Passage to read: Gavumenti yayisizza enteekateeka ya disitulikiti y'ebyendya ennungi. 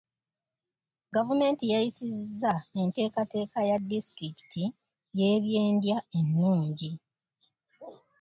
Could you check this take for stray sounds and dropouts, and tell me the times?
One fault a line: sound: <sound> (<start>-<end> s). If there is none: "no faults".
no faults